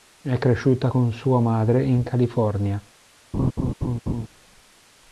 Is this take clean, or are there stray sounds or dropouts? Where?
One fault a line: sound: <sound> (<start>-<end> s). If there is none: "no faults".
sound: laugh (3.3-4.3 s)